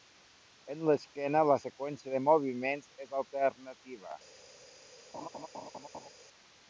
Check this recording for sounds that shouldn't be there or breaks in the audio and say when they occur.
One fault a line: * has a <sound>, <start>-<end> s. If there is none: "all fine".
* has a laugh, 5.1-6.1 s